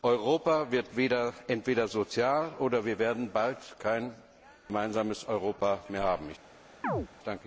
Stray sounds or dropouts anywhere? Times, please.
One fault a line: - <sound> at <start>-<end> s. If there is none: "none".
- chirp at 6.8-7.1 s